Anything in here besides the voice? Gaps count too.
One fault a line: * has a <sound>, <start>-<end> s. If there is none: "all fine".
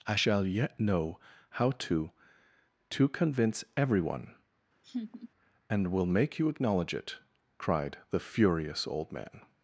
* has a laugh, 4.8-5.3 s